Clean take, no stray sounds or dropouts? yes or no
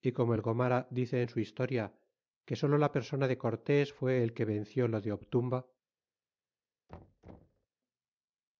no